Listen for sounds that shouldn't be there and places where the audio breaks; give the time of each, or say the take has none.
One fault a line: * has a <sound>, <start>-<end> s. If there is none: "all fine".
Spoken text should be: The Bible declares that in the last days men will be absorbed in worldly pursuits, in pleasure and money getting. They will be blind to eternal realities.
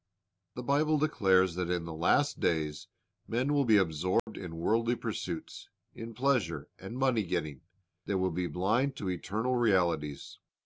* has a dropout, 4.2-4.3 s